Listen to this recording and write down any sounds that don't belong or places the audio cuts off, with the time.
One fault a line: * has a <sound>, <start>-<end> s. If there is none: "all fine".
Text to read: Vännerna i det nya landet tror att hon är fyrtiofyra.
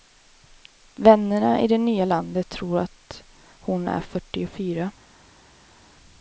all fine